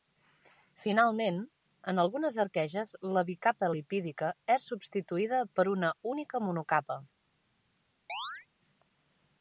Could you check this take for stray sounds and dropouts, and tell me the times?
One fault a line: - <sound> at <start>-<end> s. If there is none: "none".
- chirp at 8.1-8.5 s